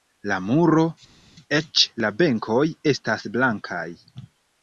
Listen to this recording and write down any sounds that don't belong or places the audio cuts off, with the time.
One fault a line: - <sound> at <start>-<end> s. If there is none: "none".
none